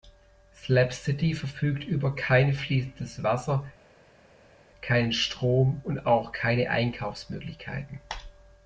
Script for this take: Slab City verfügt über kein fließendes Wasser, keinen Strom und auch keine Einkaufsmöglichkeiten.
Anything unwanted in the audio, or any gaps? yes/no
no